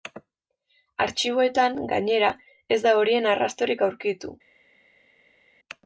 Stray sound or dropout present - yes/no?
no